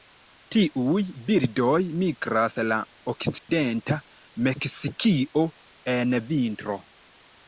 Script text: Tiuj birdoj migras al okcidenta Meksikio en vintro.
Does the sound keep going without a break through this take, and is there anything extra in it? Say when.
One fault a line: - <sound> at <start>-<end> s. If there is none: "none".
- dropout at 3.4-3.5 s